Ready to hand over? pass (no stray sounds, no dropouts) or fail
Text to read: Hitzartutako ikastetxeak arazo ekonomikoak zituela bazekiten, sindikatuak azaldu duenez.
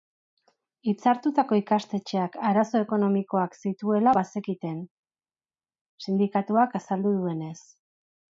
pass